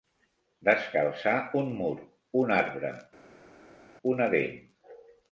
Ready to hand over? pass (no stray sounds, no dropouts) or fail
pass